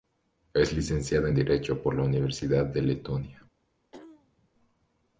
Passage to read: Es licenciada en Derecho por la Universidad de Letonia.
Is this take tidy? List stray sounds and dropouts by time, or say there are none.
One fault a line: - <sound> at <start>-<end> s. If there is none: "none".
- throat clearing at 3.9-4.5 s